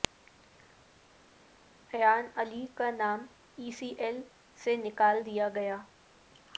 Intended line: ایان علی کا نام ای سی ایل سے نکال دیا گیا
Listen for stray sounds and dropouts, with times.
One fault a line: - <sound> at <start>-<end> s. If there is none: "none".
none